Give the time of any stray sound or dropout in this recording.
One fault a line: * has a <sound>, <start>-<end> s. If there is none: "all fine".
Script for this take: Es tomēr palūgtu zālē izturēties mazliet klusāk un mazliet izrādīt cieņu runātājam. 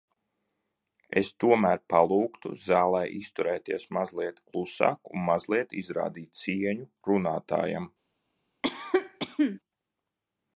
* has a cough, 8.6-9.6 s